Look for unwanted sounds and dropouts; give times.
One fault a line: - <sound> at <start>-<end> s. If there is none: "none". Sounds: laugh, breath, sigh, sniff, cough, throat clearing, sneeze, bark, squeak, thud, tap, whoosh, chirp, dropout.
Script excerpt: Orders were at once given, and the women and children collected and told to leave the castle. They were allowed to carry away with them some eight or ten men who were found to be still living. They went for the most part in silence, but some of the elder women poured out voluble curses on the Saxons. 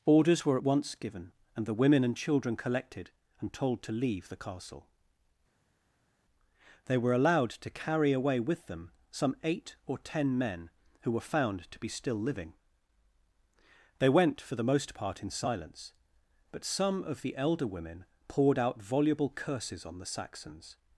none